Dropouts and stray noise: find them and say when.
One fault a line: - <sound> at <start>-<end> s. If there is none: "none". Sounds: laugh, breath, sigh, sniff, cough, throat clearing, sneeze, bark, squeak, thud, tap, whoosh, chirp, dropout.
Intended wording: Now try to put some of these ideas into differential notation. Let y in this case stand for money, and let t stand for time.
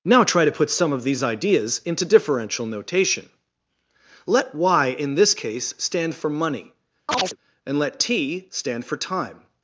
- chirp at 7.1-7.4 s